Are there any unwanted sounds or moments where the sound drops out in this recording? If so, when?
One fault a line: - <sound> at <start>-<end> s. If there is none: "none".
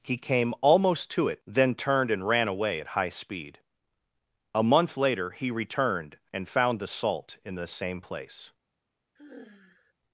- sigh at 9.2-9.9 s